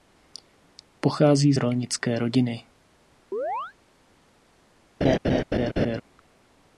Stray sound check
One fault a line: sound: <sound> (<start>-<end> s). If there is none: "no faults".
sound: chirp (3.3-3.7 s)
sound: laugh (5.0-6.0 s)